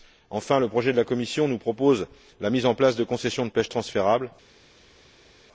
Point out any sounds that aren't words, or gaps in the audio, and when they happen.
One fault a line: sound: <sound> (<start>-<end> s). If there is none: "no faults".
no faults